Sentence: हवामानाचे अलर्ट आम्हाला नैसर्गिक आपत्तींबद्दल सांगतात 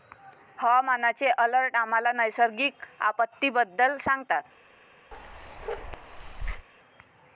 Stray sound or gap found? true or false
true